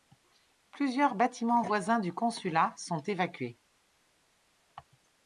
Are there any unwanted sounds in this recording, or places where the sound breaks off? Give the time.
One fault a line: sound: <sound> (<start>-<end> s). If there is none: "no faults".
no faults